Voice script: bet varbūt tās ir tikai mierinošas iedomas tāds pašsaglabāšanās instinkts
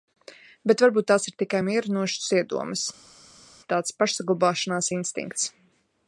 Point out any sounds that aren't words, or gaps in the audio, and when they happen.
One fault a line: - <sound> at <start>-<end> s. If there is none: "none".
none